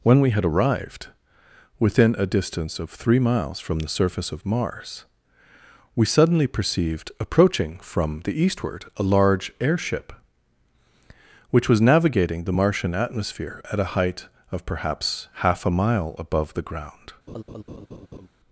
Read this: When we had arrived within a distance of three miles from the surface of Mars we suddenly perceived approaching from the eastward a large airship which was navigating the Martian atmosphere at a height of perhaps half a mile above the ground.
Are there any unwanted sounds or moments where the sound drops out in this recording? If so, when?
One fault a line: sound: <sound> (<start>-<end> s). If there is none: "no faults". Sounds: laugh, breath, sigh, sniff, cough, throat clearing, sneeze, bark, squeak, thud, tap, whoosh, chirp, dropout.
sound: laugh (17.3-18.3 s)